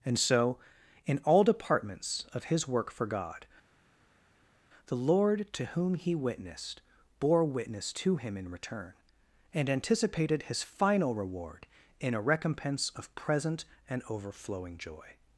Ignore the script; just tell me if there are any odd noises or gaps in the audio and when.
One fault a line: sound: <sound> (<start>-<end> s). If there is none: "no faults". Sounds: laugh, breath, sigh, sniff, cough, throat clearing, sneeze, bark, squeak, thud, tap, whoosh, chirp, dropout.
no faults